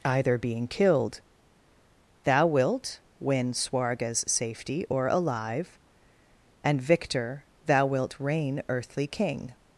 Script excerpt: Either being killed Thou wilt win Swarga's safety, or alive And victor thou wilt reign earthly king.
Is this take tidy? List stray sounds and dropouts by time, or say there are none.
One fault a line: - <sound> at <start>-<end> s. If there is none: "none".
none